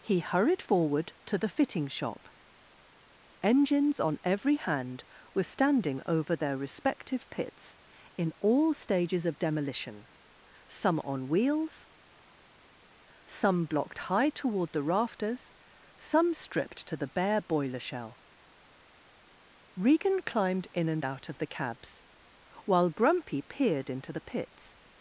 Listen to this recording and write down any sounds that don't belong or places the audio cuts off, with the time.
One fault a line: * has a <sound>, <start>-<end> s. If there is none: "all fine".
all fine